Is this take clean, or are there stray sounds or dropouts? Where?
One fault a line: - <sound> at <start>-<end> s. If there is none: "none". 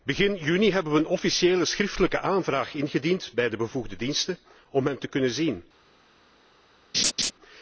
- laugh at 6.9-7.3 s